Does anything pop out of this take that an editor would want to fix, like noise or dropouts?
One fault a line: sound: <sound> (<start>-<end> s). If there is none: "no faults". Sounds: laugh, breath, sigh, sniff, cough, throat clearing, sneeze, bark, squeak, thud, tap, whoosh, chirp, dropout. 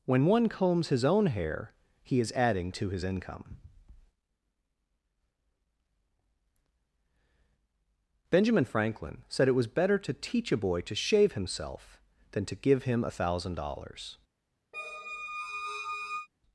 sound: squeak (14.7-16.3 s)